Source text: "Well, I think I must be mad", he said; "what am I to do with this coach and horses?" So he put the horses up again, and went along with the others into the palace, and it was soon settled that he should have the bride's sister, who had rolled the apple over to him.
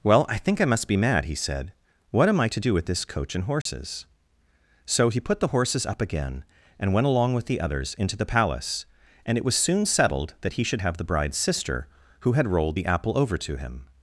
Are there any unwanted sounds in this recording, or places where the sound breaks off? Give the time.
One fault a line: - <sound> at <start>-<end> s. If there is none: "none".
- dropout at 3.6-3.7 s